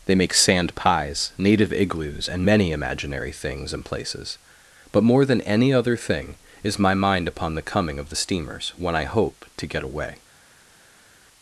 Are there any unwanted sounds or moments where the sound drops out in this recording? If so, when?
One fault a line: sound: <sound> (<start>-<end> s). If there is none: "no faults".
no faults